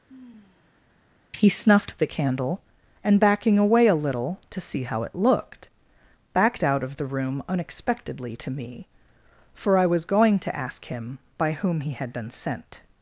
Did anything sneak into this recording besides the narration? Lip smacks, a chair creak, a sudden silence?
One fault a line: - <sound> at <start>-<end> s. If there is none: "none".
- sigh at 0.1-0.9 s